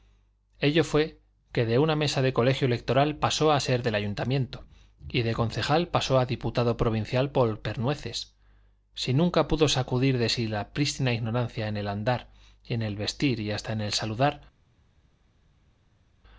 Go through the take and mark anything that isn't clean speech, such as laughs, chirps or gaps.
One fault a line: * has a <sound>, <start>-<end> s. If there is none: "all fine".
all fine